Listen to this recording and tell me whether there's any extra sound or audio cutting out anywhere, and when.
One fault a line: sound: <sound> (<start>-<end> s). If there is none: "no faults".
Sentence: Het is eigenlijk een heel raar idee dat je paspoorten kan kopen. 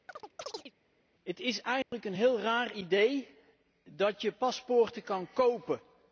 sound: chirp (0.1-0.7 s)
sound: dropout (1.8-1.9 s)